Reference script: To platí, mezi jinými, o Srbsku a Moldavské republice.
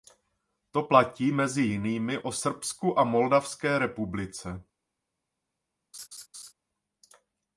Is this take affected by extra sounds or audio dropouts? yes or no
yes